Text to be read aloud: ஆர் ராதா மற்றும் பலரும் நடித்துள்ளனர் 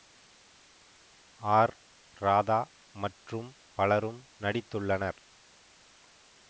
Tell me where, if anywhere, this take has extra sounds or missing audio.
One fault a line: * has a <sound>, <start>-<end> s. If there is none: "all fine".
all fine